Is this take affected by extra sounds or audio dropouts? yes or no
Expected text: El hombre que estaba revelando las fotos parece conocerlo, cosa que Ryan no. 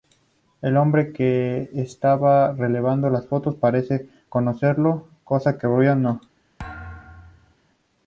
yes